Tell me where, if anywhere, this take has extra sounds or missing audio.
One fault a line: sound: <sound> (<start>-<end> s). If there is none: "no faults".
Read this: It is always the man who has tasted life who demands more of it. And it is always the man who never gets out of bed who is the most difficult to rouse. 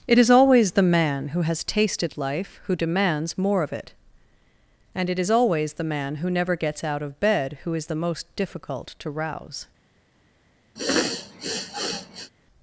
sound: sniff (10.8-12.3 s)